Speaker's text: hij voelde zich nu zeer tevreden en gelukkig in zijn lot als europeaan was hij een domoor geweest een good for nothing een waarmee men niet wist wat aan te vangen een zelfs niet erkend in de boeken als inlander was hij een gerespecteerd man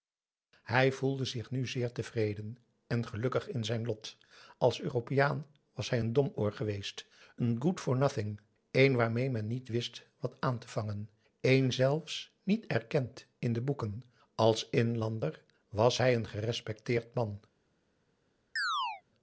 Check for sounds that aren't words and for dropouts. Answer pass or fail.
fail